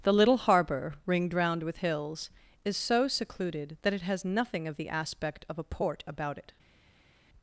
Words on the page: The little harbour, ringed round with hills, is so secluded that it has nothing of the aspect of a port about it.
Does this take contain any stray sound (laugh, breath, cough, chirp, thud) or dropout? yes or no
no